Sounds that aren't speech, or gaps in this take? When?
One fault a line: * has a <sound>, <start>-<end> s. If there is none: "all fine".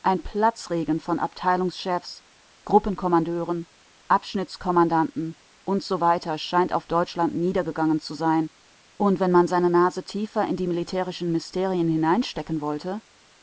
all fine